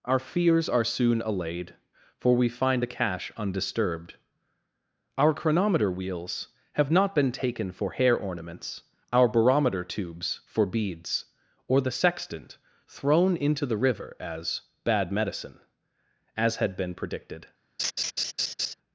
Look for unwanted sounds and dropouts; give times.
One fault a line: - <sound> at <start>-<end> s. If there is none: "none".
- laugh at 17.8-18.7 s